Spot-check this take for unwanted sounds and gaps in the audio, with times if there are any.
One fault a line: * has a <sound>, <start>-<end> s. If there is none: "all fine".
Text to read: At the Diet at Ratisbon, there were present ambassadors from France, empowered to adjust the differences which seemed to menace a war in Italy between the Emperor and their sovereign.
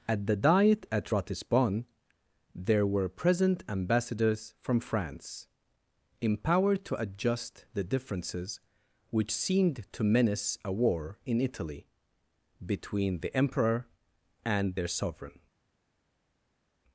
all fine